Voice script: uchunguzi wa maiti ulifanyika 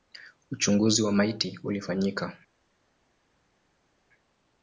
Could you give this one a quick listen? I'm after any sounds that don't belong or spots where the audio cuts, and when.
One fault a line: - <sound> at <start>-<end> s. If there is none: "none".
none